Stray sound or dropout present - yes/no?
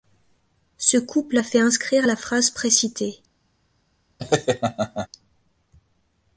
yes